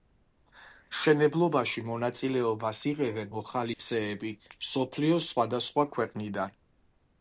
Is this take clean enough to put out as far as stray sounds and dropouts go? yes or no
no